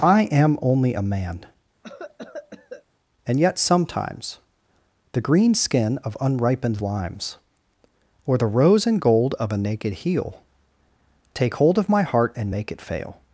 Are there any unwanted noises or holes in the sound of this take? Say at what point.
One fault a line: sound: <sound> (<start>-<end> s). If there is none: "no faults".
sound: cough (1.8-2.9 s)